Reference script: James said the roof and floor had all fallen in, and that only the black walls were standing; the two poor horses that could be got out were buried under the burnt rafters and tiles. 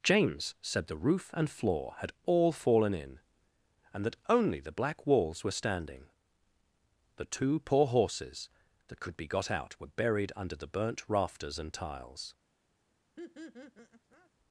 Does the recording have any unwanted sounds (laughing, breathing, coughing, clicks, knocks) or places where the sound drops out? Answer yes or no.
yes